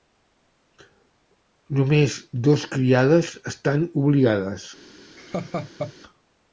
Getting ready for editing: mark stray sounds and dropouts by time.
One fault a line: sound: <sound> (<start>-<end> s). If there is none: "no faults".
sound: laugh (5.2-5.9 s)